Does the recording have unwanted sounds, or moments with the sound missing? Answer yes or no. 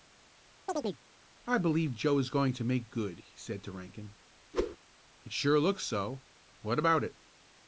yes